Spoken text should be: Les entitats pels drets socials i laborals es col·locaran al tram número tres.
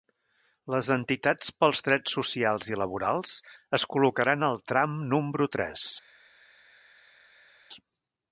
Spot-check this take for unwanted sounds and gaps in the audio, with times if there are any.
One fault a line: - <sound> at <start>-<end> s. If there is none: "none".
none